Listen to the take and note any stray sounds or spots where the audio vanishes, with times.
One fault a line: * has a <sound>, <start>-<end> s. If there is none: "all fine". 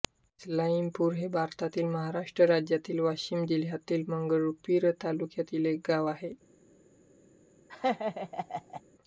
* has a laugh, 7.7-8.8 s